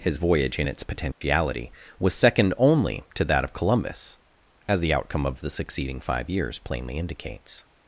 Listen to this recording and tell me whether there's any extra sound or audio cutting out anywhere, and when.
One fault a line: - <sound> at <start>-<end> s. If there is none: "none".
- dropout at 1.1-1.2 s